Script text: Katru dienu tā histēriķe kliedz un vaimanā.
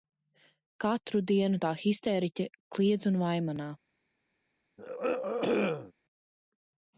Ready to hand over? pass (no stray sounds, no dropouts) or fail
fail